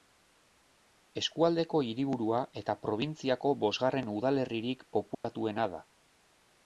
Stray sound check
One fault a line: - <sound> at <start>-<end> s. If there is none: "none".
- dropout at 5.1-5.2 s